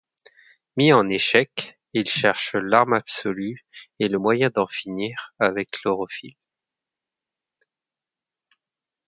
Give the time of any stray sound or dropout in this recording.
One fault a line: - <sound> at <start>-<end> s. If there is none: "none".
none